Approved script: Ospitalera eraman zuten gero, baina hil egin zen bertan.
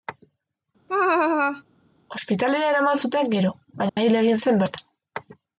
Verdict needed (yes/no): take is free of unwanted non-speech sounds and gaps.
no